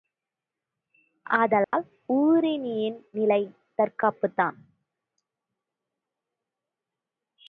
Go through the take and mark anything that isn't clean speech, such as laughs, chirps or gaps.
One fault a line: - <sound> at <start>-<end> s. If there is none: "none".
- dropout at 1.6-1.7 s